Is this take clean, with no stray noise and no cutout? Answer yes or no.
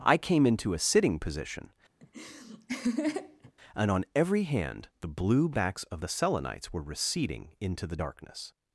no